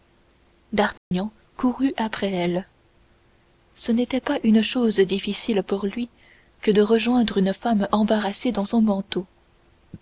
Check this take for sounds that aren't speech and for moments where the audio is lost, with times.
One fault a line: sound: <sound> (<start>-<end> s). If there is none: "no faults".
sound: dropout (1.0-1.1 s)